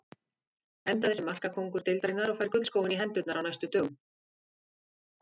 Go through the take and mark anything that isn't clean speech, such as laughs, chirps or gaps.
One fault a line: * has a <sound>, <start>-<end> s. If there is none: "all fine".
all fine